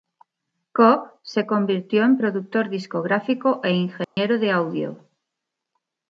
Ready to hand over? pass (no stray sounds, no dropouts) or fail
fail